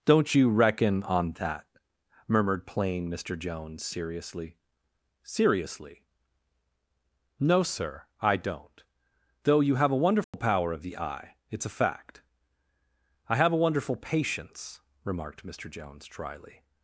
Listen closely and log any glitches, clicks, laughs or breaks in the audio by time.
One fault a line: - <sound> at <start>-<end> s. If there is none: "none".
- dropout at 10.2-10.3 s